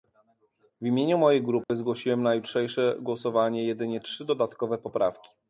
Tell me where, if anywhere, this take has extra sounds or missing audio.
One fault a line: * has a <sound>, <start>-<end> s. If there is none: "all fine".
* has a dropout, 1.6-1.7 s